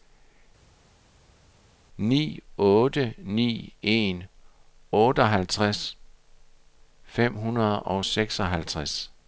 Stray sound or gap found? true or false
false